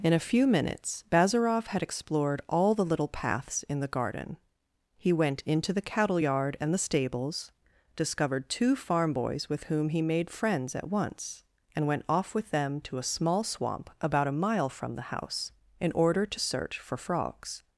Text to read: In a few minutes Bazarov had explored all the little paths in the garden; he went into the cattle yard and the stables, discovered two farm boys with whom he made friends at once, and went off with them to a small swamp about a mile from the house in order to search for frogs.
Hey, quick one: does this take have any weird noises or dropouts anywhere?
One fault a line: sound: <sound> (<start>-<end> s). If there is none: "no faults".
no faults